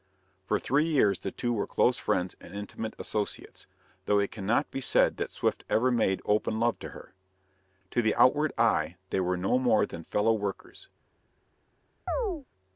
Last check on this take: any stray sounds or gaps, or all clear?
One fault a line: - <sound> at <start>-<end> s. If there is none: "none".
- chirp at 12.1-12.5 s